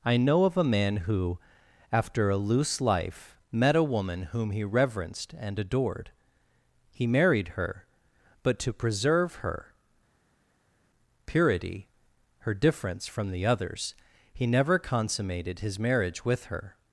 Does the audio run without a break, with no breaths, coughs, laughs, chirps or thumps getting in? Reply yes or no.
yes